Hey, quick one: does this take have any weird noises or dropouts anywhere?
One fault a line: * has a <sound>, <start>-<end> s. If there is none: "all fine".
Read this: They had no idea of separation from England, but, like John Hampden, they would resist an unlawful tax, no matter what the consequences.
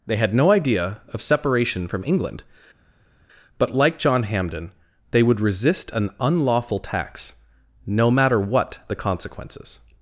all fine